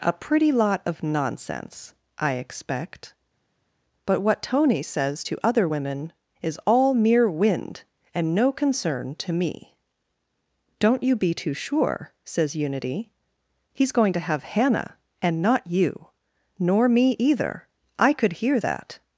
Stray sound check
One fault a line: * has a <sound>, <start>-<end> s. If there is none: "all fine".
all fine